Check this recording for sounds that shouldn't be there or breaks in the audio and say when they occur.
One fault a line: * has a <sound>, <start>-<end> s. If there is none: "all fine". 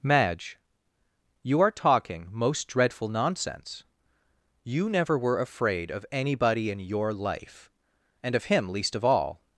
all fine